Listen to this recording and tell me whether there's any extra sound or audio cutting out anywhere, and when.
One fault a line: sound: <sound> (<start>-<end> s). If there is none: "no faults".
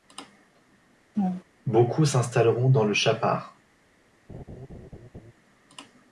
sound: laugh (1.1-1.4 s)
sound: laugh (4.3-5.3 s)